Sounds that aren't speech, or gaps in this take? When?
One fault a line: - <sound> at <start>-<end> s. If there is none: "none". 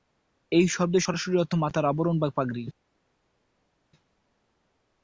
none